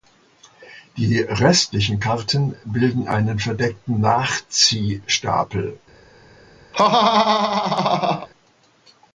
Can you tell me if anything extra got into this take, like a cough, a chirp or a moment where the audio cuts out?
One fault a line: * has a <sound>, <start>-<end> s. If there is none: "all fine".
* has a laugh, 6.7-8.3 s